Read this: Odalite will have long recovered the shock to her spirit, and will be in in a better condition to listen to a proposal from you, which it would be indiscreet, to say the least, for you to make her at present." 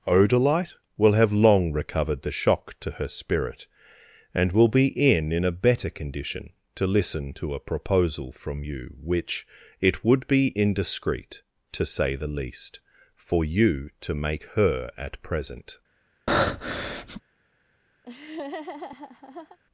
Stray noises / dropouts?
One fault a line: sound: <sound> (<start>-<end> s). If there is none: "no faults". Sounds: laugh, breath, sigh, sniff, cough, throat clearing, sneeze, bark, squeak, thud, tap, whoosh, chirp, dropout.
sound: breath (16.3-17.2 s)
sound: laugh (18.0-19.6 s)